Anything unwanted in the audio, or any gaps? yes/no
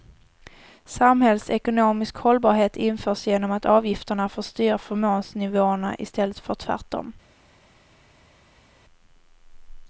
no